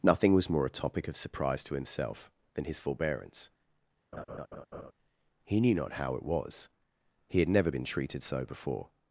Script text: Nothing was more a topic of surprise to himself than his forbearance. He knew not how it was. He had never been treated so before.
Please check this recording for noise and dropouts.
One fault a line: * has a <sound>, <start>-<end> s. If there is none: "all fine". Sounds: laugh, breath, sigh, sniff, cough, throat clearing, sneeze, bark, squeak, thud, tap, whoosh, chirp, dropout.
* has a laugh, 4.1-4.9 s